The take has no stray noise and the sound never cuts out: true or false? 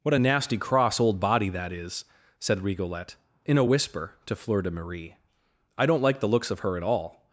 true